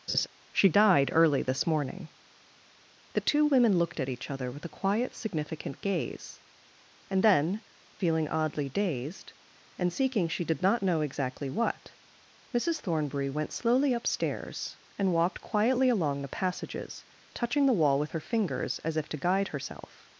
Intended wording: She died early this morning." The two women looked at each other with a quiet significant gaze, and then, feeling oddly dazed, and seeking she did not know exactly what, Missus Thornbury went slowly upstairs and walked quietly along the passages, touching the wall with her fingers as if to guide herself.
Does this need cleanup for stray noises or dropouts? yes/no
yes